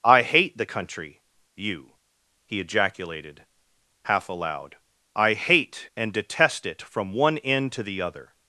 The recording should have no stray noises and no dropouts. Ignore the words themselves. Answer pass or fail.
pass